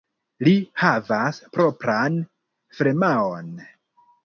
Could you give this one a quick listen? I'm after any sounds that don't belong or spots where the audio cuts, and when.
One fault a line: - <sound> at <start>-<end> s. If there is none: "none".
none